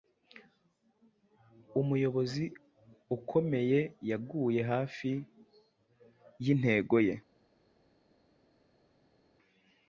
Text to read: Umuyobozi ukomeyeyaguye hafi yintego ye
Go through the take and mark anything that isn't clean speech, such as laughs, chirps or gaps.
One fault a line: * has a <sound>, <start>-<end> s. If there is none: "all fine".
all fine